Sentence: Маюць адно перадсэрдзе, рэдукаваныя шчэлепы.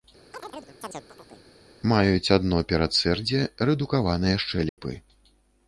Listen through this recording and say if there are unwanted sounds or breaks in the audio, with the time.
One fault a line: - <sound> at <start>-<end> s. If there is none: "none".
- chirp at 0.3-1.5 s
- dropout at 4.7-4.8 s